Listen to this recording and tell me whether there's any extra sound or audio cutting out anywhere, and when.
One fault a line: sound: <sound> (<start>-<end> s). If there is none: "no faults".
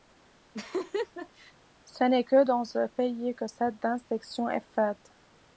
sound: laugh (0.5-1.5 s)